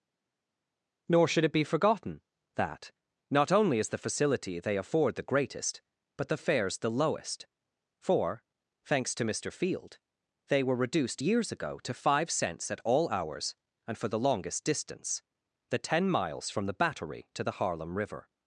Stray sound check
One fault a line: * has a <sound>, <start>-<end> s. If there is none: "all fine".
all fine